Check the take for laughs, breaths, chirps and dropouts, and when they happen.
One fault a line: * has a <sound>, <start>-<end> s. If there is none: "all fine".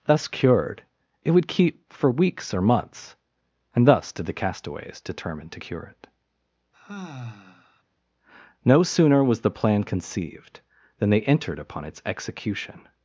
* has a sigh, 6.7-7.8 s